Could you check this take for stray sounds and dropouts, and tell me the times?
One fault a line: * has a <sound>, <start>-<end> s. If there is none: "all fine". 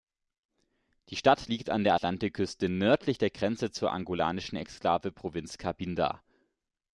all fine